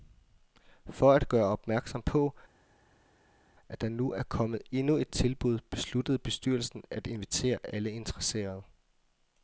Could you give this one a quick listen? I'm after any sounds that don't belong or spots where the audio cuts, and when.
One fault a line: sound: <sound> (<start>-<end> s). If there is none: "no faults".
no faults